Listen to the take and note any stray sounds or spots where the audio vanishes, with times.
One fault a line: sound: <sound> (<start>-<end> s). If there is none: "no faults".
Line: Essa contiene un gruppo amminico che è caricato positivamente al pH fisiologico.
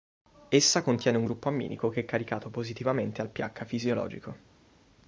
no faults